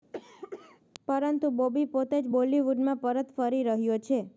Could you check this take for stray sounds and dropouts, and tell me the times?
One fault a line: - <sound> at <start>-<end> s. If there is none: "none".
- cough at 0.1-0.8 s